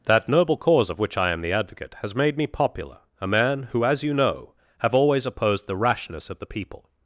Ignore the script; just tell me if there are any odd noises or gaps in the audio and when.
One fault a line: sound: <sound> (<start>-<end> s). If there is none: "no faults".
no faults